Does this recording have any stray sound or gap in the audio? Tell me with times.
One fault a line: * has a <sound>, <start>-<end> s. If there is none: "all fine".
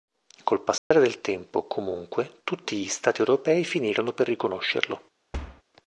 * has a dropout, 0.8-0.9 s
* has a thud, 5.3-5.6 s